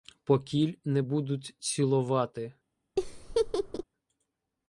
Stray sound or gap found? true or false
true